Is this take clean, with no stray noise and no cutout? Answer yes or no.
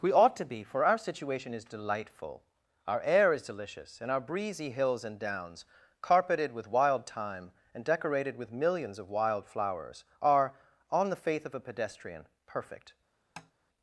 no